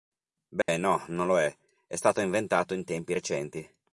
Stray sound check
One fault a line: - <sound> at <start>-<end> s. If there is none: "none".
- dropout at 0.6-0.7 s